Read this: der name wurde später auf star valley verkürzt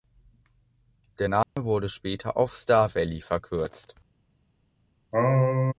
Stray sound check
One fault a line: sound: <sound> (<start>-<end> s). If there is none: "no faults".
sound: dropout (1.4-1.6 s)
sound: sneeze (5.1-5.7 s)